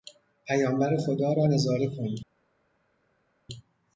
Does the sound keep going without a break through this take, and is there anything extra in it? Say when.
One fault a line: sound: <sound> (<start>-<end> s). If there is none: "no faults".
no faults